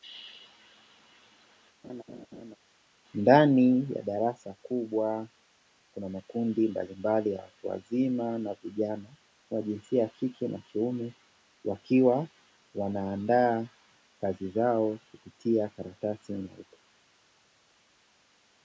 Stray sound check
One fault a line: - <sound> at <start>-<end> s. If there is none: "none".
- laugh at 1.8-2.6 s